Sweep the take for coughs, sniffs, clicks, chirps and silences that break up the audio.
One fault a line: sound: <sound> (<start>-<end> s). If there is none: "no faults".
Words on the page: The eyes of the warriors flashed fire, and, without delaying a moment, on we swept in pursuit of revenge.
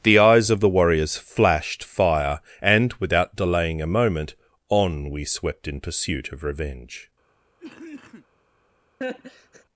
sound: cough (7.6-8.3 s)
sound: laugh (9.0-9.6 s)